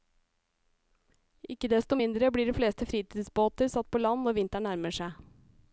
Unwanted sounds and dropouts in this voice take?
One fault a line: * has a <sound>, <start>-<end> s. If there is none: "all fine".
all fine